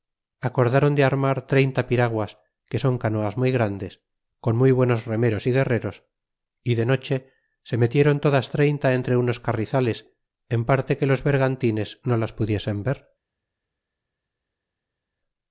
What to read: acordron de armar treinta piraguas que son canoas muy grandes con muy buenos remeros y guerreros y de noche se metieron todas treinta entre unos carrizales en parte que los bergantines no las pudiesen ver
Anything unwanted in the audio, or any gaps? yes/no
no